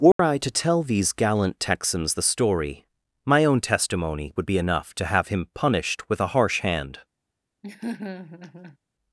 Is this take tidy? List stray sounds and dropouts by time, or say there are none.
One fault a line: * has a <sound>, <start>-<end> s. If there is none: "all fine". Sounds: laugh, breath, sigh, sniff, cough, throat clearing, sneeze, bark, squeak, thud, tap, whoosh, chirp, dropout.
* has a dropout, 0.1-0.2 s
* has a laugh, 7.6-8.8 s